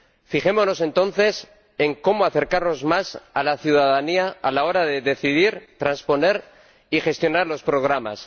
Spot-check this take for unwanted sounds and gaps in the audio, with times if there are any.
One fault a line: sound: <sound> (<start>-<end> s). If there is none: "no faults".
no faults